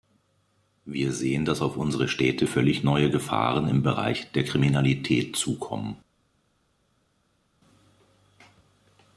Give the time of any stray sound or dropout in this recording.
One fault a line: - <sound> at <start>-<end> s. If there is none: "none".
none